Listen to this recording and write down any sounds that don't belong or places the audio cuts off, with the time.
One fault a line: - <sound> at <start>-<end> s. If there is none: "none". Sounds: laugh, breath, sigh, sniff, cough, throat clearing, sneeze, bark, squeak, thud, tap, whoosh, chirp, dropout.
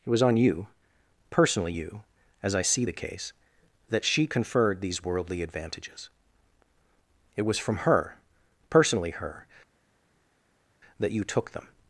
none